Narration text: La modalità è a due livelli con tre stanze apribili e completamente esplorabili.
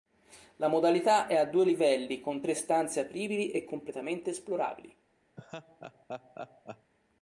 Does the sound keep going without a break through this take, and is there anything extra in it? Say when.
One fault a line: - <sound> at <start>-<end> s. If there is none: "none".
- laugh at 5.4-6.9 s